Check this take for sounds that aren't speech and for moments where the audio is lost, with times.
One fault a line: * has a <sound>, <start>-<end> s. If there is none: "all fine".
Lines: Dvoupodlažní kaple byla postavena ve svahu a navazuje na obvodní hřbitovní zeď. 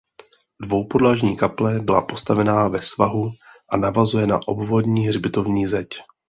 all fine